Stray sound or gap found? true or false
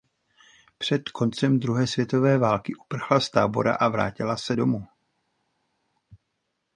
false